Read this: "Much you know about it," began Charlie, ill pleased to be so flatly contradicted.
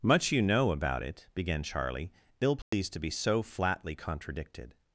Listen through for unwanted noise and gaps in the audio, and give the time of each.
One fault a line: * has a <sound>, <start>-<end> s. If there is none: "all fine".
* has a dropout, 2.6-2.7 s